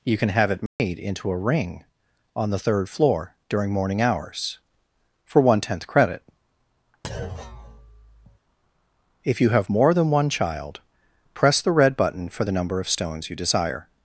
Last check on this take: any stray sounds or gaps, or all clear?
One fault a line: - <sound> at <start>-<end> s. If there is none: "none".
- dropout at 0.7-0.8 s
- thud at 7.0-8.4 s